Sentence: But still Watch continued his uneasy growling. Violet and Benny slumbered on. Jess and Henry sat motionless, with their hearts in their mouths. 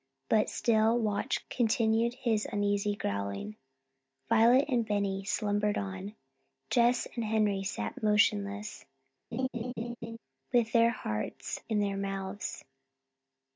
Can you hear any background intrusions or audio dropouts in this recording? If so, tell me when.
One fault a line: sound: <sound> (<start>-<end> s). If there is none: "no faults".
sound: laugh (9.3-10.2 s)